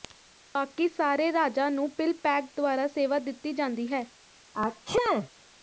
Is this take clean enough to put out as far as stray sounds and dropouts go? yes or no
no